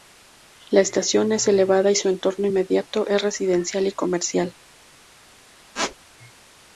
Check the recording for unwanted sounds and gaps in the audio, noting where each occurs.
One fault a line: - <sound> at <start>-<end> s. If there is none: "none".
- squeak at 5.7-6.0 s